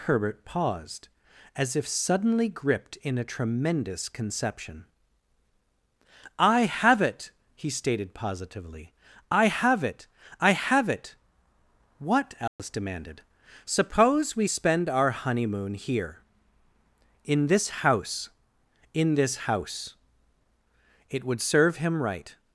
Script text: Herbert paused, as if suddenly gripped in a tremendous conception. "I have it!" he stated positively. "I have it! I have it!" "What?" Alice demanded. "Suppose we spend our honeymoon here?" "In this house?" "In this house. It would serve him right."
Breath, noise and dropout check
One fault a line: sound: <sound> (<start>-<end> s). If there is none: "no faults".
sound: dropout (12.5-12.6 s)